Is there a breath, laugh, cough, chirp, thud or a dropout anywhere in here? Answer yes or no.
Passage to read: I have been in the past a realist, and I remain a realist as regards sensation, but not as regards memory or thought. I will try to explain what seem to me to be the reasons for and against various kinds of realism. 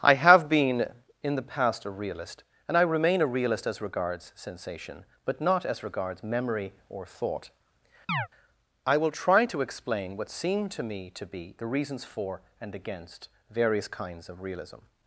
yes